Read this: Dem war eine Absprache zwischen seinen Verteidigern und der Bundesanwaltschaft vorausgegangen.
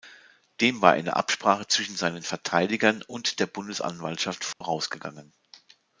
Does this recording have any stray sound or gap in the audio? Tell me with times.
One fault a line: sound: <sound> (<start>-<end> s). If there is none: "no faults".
sound: dropout (4.5-4.6 s)